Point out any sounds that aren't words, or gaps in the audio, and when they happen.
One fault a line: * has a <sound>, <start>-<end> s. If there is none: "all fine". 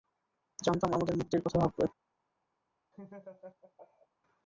* has a laugh, 2.9-4.1 s